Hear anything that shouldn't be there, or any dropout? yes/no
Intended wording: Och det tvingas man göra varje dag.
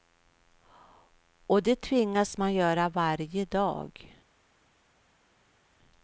no